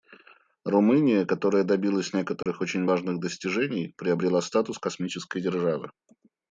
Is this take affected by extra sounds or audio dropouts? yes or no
yes